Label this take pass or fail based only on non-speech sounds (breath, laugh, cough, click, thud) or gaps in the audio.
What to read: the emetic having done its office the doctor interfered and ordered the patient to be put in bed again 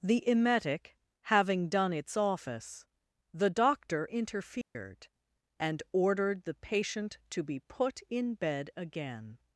fail